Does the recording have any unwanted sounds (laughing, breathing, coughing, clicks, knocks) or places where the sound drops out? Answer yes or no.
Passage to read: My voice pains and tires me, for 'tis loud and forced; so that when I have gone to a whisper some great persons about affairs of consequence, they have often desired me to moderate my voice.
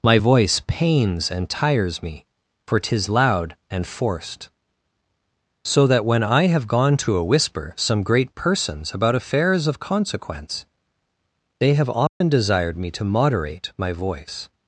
yes